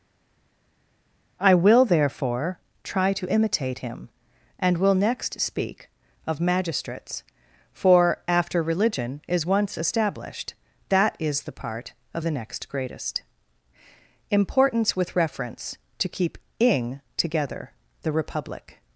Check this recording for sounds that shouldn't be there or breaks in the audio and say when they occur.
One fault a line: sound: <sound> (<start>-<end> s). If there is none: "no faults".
no faults